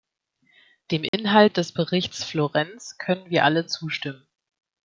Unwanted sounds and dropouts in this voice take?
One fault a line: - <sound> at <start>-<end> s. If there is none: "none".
- dropout at 1.1-1.1 s